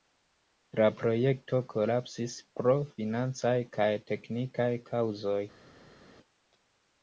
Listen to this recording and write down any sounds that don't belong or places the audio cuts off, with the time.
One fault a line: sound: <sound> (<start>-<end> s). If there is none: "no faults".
no faults